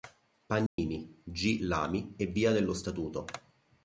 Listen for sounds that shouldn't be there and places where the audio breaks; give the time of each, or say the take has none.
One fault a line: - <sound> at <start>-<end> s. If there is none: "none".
- dropout at 0.7-0.8 s